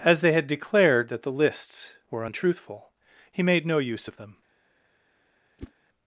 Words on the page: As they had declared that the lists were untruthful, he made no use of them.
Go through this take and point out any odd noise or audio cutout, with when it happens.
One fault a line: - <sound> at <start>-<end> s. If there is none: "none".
- whoosh at 5.6-5.7 s